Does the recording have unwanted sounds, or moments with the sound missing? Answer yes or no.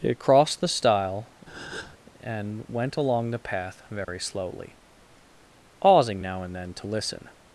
yes